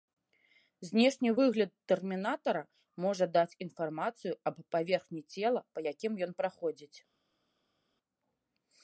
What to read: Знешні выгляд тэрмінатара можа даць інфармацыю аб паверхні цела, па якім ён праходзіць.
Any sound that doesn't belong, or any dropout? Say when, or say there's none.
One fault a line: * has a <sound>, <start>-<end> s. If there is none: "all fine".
all fine